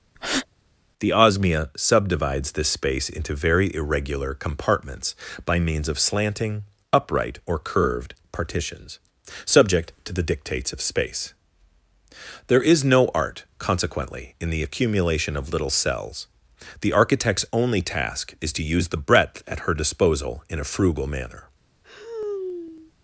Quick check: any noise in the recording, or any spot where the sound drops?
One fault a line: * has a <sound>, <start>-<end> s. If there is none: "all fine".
* has a breath, 0.1-0.5 s
* has a sigh, 21.8-22.9 s